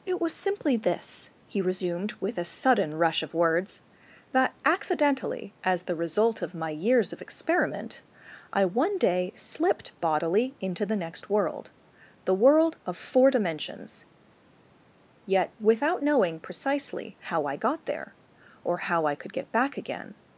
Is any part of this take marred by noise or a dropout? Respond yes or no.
no